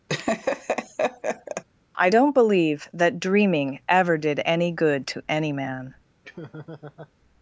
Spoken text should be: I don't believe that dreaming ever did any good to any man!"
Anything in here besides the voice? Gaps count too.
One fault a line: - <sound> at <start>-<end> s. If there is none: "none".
- laugh at 0.1-1.6 s
- laugh at 6.2-7.1 s